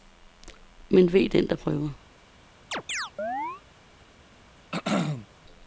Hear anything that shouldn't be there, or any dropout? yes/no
yes